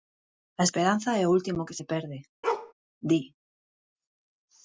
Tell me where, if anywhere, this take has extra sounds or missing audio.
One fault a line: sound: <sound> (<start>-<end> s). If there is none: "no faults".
sound: bark (2.4-2.7 s)